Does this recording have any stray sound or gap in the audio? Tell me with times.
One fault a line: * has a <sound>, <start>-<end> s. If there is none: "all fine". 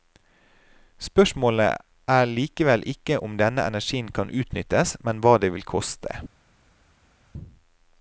all fine